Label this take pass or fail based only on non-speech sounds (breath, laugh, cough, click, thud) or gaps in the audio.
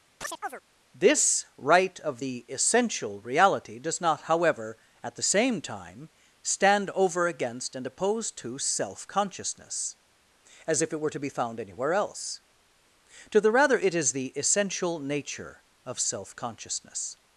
fail